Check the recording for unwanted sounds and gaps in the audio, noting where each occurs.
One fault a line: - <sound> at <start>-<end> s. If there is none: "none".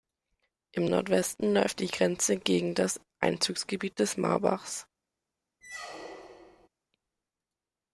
- squeak at 5.6-6.7 s